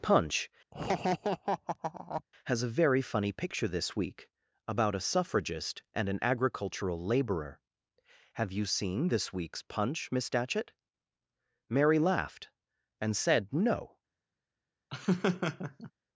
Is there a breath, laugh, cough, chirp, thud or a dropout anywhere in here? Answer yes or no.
yes